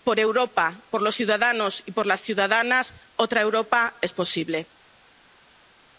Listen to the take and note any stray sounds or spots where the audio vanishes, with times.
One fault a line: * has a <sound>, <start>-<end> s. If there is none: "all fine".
all fine